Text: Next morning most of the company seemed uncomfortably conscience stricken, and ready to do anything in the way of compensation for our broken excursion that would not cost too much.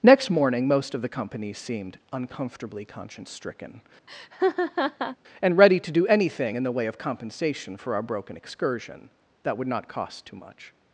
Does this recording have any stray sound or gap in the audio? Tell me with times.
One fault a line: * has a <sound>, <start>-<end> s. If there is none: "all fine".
* has a laugh, 4.1-5.2 s